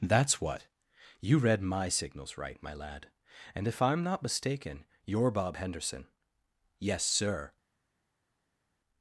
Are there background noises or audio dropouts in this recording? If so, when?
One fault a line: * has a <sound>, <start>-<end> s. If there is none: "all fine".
all fine